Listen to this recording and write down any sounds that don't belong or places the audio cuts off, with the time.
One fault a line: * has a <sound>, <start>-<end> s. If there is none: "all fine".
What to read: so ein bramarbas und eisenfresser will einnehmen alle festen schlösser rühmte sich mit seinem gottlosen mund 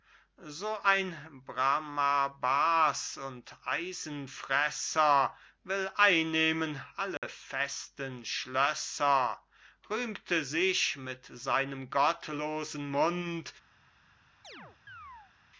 * has a dropout, 7.2-7.2 s
* has a chirp, 14.4-15.3 s